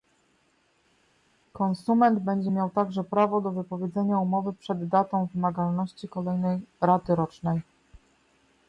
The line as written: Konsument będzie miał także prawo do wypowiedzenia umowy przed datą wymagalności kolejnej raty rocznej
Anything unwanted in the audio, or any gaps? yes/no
no